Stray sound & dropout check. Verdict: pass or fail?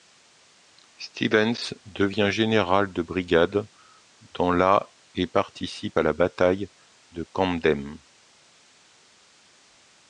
pass